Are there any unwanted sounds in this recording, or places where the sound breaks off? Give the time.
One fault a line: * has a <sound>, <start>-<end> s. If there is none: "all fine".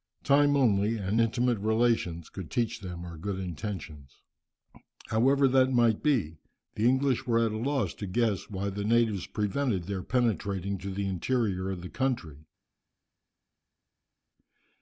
all fine